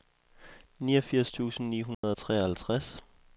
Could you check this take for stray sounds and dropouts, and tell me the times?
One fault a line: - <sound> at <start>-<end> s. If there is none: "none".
- dropout at 1.9-2.0 s